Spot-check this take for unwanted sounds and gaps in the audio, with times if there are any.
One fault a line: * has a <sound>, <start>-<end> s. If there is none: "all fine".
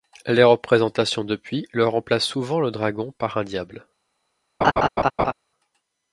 * has a laugh, 4.6-5.3 s